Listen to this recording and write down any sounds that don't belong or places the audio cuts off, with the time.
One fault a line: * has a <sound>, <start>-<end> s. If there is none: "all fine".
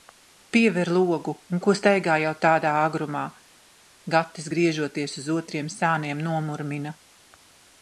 all fine